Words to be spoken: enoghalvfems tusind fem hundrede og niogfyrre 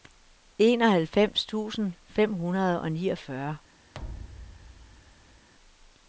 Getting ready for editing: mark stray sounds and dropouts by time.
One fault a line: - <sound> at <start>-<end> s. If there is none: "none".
- thud at 3.9-5.5 s